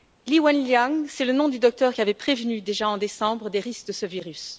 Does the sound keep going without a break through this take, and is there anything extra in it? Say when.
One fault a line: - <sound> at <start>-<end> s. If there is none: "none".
none